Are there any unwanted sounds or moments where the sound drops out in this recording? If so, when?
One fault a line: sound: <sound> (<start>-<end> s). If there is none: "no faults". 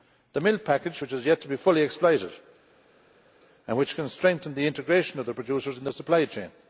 no faults